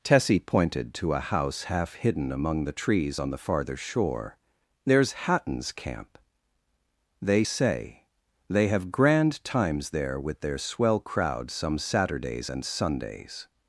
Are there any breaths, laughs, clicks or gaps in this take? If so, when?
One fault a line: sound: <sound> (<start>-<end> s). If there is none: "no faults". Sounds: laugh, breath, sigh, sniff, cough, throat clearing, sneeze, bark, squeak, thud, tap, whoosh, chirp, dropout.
no faults